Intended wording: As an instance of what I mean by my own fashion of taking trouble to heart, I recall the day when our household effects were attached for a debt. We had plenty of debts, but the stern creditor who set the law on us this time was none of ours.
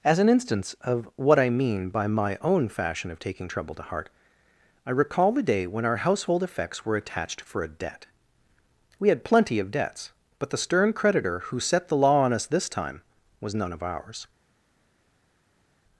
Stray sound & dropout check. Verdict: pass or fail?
pass